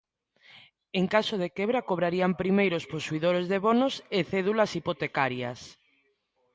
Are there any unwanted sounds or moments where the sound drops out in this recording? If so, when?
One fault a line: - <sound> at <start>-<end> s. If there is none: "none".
none